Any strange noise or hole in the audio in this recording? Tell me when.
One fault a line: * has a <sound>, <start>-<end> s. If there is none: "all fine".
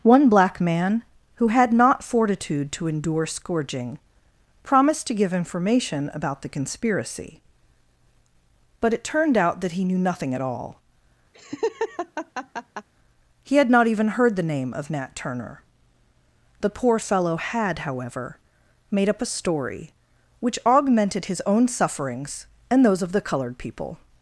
* has a laugh, 11.3-12.9 s